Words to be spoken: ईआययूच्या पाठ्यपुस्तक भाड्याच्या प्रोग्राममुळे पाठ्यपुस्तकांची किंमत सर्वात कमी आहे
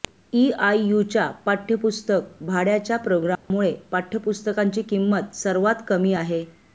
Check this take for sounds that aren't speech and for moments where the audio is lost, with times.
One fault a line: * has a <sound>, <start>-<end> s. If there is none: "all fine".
* has a dropout, 3.4-3.5 s